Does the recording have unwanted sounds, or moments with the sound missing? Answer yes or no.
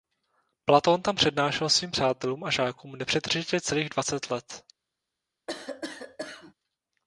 yes